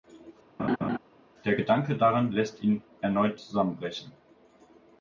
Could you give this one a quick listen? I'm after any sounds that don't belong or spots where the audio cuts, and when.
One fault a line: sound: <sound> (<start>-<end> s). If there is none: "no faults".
sound: laugh (0.6-1.0 s)